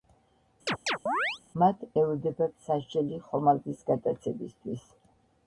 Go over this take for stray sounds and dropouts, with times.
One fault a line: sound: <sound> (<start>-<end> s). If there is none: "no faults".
sound: chirp (0.7-1.4 s)